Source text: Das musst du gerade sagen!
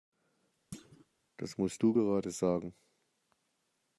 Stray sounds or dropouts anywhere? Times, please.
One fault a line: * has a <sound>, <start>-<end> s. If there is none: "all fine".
* has a thud, 0.7-1.1 s